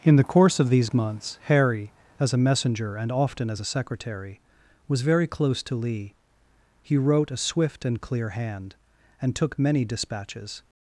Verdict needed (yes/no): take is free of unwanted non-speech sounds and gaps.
yes